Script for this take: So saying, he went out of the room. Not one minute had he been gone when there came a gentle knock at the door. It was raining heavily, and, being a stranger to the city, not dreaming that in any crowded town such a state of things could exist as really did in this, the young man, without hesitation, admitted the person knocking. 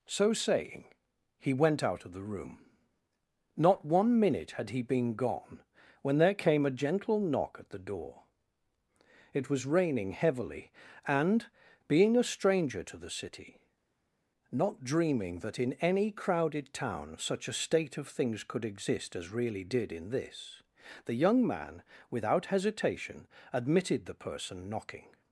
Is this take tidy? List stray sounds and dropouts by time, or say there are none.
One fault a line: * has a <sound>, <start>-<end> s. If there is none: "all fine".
all fine